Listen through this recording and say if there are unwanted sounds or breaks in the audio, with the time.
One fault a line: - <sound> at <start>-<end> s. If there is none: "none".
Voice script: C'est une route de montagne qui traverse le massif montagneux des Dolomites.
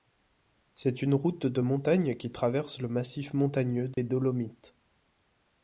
- dropout at 3.9-4.0 s